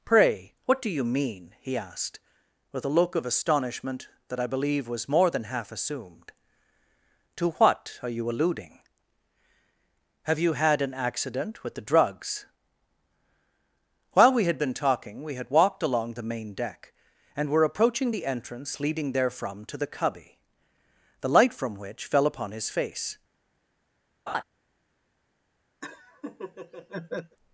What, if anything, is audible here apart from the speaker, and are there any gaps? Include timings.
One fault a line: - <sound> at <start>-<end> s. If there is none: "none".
- laugh at 24.3-24.4 s
- laugh at 25.8-27.4 s